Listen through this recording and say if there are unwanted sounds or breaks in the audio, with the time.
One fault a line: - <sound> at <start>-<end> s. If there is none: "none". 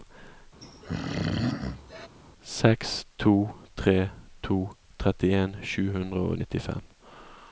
- throat clearing at 0.6-2.1 s